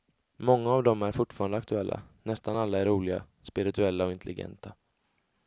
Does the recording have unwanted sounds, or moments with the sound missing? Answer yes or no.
no